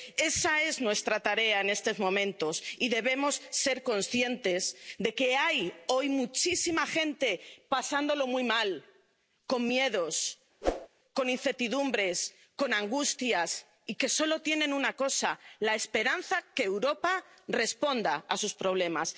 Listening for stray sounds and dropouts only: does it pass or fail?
fail